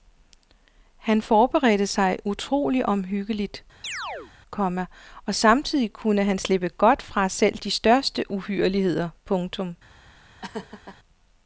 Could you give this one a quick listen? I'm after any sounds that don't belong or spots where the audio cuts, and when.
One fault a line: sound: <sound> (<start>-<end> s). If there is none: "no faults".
sound: chirp (3.8-4.3 s)
sound: laugh (10.4-11.0 s)